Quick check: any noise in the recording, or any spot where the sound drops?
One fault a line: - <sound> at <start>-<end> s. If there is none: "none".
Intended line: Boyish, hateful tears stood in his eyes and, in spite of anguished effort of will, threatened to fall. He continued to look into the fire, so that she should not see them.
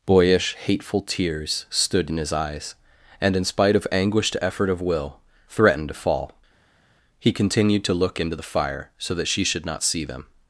none